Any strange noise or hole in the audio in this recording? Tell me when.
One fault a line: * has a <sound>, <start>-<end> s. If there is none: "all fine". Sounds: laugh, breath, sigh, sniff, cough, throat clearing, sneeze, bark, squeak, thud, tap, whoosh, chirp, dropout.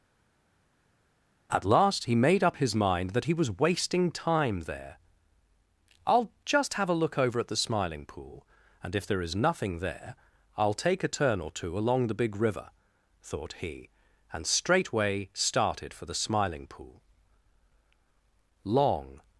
all fine